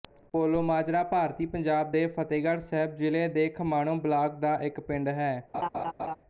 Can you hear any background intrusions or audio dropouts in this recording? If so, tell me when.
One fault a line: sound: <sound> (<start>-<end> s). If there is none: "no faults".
sound: laugh (5.5-6.2 s)